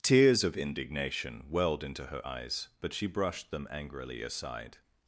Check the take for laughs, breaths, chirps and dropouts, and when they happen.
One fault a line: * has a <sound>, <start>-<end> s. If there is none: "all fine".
all fine